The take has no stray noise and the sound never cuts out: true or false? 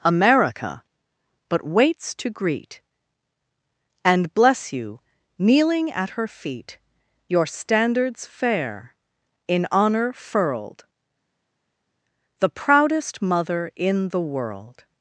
true